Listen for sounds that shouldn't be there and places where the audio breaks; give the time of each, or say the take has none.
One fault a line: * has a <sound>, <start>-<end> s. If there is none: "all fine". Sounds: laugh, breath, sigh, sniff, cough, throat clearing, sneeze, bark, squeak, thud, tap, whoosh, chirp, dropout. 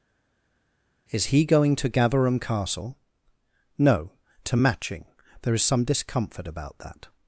all fine